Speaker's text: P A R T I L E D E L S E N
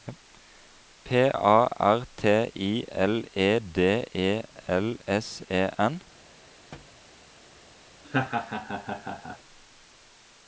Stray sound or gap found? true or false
true